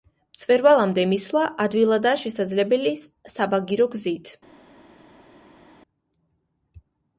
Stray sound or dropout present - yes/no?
no